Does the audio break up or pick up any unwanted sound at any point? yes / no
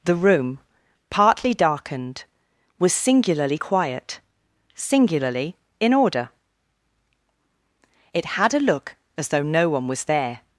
no